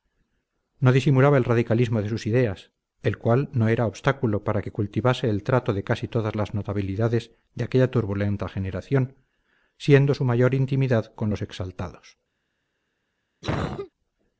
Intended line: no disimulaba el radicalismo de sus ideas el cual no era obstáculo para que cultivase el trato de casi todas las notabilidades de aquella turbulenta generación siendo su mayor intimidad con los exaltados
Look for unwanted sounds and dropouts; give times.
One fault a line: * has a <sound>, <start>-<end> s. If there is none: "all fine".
* has a cough, 13.4-13.9 s